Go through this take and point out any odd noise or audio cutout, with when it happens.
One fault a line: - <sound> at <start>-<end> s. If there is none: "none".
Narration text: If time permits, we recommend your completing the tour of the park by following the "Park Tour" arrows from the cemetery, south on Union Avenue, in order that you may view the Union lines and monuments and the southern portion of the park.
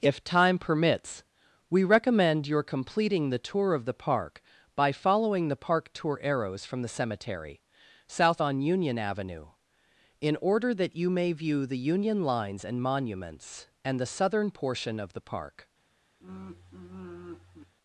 - sigh at 16.2-17.8 s